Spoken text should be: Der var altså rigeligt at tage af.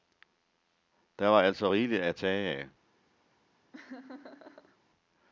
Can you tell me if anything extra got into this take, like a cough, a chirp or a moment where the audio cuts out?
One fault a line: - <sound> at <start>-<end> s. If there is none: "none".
- laugh at 3.7-4.8 s